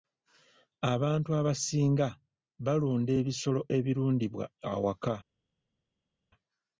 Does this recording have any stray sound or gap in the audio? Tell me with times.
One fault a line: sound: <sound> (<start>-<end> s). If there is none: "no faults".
no faults